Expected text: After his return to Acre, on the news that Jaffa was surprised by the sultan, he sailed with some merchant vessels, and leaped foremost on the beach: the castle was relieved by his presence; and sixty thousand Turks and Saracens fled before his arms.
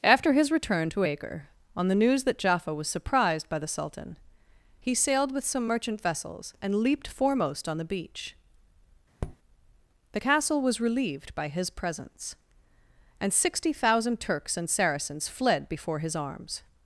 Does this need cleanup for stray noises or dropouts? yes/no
yes